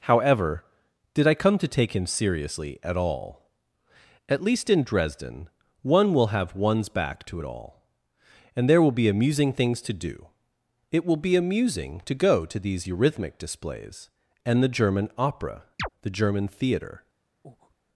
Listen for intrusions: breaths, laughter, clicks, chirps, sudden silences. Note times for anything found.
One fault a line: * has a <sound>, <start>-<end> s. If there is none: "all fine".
* has a chirp, 15.8-15.9 s
* has a breath, 17.4-17.8 s